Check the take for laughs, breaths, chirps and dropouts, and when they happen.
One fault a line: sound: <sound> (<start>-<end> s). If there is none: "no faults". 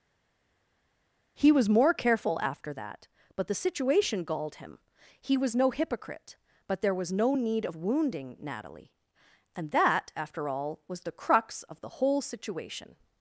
no faults